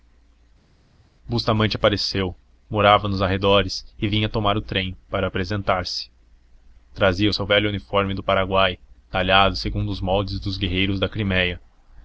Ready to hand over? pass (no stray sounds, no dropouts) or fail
pass